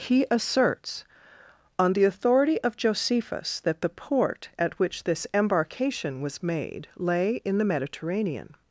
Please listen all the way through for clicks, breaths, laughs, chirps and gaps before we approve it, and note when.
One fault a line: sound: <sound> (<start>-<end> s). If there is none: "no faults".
no faults